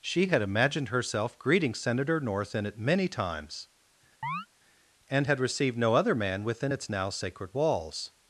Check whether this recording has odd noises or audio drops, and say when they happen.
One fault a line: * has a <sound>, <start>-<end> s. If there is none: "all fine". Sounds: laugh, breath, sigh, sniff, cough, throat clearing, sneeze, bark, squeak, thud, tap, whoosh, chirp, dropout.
* has a chirp, 4.2-4.5 s